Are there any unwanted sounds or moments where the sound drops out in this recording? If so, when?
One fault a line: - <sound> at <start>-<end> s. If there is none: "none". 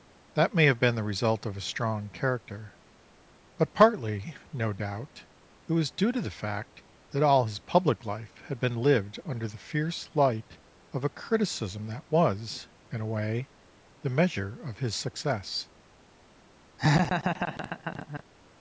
- laugh at 16.8-18.2 s